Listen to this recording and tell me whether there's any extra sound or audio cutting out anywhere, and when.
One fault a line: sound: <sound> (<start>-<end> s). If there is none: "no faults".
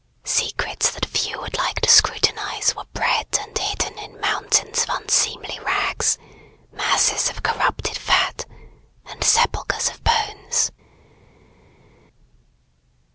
no faults